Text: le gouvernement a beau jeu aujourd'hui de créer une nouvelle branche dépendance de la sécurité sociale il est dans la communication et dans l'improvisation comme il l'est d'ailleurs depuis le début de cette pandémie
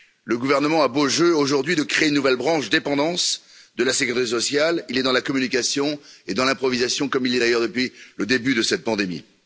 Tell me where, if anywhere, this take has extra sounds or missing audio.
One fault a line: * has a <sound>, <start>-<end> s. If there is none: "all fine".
all fine